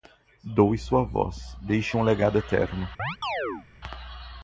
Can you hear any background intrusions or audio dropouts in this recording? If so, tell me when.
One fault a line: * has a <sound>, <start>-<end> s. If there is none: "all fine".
* has a chirp, 3.0-3.7 s